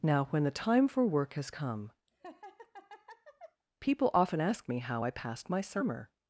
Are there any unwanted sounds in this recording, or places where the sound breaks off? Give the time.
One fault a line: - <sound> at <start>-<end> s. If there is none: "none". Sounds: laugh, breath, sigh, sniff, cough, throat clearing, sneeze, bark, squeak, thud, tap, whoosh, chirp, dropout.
- laugh at 2.1-3.6 s